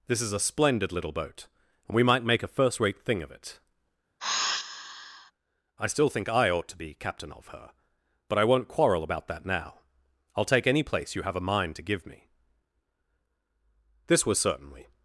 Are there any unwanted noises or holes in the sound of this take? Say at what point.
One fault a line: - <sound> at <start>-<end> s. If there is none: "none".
- sigh at 4.2-5.3 s